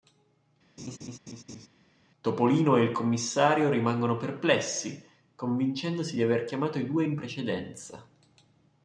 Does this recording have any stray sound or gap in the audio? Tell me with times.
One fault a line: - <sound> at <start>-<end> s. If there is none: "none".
- laugh at 0.8-1.7 s